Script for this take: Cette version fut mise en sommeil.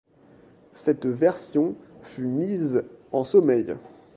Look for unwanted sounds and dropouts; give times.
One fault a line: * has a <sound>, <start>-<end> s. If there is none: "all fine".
all fine